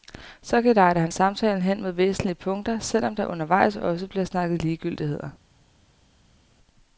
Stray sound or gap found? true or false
false